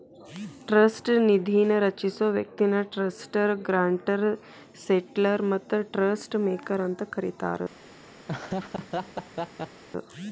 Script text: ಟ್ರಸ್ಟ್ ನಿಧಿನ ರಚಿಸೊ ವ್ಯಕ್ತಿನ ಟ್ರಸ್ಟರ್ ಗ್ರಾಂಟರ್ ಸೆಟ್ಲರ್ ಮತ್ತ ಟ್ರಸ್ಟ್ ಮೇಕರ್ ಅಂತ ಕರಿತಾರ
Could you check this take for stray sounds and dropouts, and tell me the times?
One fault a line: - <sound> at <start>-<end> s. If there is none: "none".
- laugh at 8.3-9.8 s